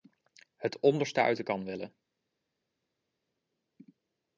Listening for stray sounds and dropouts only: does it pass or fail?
pass